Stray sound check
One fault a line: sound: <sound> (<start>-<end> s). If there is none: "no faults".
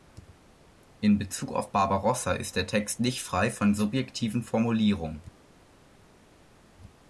no faults